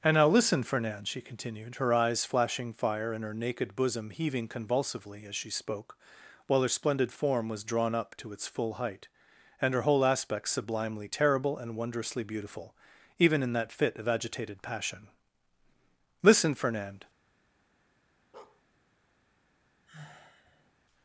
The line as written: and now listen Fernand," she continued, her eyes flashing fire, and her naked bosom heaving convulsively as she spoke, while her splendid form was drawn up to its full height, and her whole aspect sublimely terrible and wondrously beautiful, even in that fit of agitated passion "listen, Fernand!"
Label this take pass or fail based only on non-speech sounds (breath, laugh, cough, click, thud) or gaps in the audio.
fail